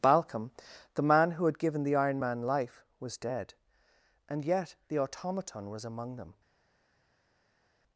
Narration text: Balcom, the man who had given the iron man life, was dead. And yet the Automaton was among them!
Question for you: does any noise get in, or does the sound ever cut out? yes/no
no